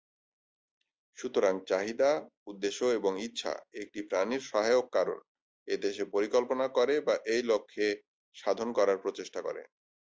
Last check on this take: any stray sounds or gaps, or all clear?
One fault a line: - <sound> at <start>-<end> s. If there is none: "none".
none